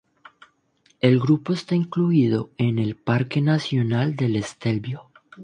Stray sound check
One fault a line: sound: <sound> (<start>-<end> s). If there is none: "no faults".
no faults